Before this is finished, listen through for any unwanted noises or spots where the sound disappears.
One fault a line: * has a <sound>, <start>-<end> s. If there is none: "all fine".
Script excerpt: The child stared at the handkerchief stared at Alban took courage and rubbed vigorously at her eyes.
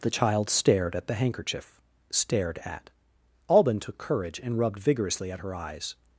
all fine